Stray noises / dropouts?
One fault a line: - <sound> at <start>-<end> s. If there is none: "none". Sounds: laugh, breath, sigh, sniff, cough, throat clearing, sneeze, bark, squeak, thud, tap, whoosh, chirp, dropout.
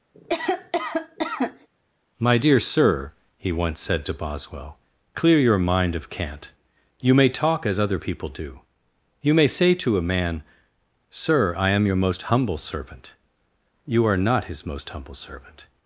- cough at 0.1-1.7 s